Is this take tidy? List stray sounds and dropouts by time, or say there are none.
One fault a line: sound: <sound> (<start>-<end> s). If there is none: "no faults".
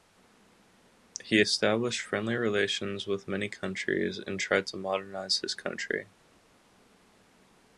no faults